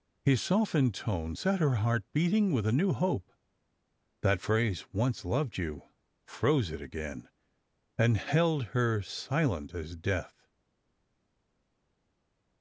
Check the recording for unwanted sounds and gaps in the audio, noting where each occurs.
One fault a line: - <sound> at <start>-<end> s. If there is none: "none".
none